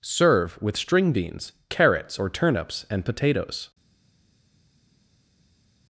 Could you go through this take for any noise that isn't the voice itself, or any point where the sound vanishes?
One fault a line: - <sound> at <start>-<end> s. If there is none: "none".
none